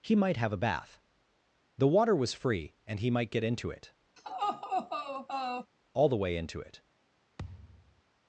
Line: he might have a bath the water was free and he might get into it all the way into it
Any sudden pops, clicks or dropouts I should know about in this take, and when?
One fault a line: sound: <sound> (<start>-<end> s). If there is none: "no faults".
sound: laugh (4.2-5.7 s)
sound: thud (7.4-8.0 s)